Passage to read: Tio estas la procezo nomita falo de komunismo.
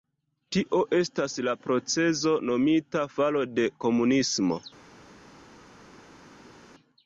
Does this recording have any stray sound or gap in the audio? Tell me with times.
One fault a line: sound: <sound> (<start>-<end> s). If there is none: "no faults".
no faults